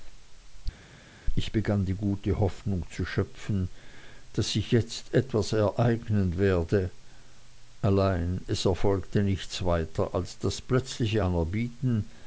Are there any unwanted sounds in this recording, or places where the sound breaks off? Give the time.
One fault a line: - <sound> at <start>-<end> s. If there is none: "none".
none